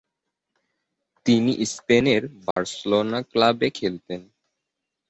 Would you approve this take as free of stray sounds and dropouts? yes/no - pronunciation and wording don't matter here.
no